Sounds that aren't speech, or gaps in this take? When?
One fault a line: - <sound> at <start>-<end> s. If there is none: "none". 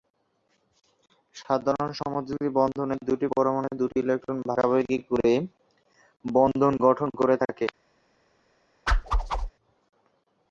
- whoosh at 8.9-9.5 s